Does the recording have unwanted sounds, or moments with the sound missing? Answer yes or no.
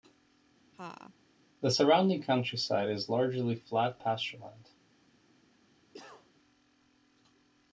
yes